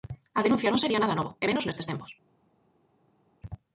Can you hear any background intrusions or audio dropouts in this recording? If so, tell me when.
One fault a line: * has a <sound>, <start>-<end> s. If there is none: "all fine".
all fine